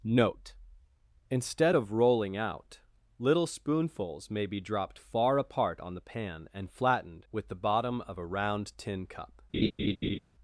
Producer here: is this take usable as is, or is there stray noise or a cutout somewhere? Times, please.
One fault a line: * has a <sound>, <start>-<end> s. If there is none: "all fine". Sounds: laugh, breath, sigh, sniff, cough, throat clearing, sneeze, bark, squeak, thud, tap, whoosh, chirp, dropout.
* has a laugh, 9.5-10.2 s